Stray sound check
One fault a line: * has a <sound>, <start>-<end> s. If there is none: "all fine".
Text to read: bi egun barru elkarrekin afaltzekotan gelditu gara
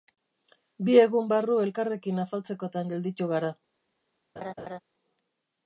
* has a laugh, 4.4-4.8 s